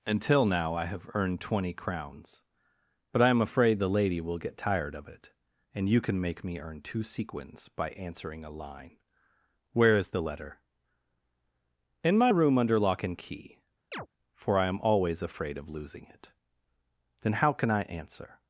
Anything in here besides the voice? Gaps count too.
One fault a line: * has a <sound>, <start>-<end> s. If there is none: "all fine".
* has a chirp, 13.9-14.1 s